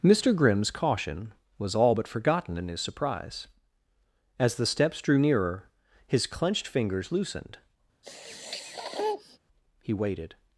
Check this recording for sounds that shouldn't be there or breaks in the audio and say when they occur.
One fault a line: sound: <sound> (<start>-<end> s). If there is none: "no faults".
sound: sniff (8.0-9.4 s)